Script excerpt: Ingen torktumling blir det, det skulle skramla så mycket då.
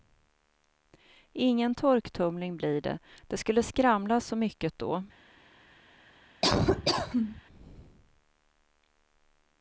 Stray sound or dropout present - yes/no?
yes